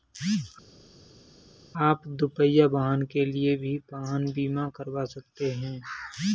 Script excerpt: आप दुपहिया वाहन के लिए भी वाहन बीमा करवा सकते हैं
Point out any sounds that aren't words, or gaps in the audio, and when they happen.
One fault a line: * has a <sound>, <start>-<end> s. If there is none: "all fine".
all fine